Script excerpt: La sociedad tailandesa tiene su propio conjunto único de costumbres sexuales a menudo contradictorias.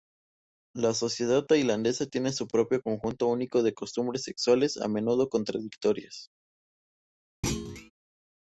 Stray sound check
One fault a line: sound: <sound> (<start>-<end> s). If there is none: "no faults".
sound: thud (7.4-7.9 s)